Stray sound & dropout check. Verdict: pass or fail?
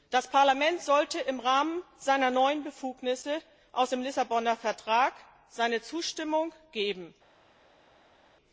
pass